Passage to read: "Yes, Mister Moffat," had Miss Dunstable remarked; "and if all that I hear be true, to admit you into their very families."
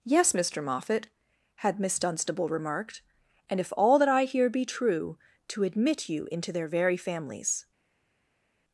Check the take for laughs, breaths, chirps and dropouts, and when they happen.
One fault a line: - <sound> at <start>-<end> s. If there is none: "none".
none